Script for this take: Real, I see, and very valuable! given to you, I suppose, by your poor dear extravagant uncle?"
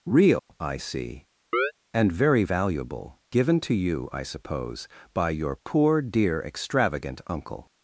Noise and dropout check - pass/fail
fail